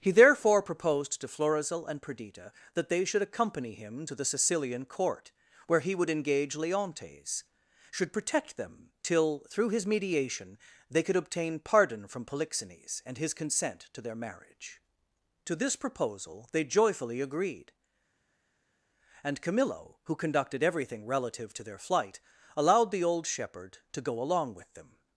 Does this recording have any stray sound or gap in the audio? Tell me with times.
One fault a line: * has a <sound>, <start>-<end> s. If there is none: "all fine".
all fine